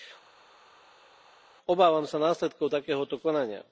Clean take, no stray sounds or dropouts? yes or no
yes